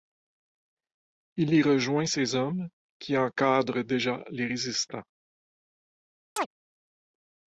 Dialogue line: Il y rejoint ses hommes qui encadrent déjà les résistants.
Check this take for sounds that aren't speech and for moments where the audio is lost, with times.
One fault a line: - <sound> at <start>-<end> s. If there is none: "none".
- chirp at 6.4-6.5 s